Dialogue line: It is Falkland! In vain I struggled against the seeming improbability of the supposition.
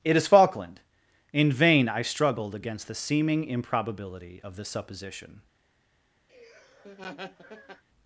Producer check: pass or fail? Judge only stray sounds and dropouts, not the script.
fail